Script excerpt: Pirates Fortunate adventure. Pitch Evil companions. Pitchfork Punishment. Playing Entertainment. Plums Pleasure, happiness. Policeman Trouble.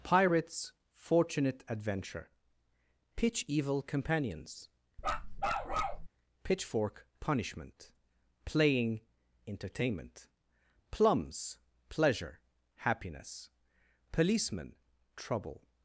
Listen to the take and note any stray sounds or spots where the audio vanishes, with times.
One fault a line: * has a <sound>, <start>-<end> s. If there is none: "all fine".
* has a bark, 5.0-6.1 s